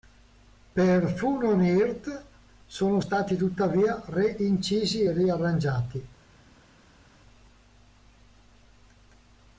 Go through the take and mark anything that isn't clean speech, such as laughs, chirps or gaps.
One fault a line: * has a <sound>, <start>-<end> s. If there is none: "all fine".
all fine